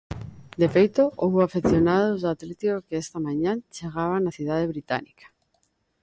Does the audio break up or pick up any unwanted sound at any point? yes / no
no